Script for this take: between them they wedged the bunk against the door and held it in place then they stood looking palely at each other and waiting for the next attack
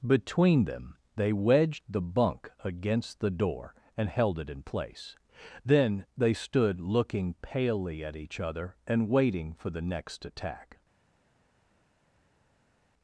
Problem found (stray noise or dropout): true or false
false